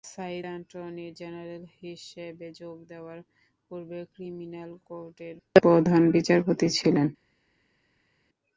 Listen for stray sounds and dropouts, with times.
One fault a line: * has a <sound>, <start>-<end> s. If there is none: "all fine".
all fine